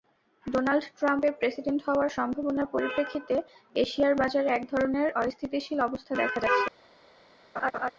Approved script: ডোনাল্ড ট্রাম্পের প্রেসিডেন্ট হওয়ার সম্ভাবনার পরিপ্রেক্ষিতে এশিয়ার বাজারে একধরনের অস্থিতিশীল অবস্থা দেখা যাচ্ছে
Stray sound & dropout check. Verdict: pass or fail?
fail